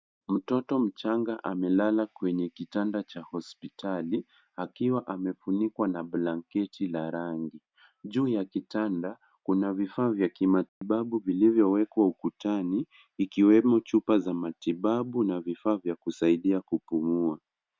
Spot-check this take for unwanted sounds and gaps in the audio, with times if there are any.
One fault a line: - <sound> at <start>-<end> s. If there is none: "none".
- dropout at 10.7-10.8 s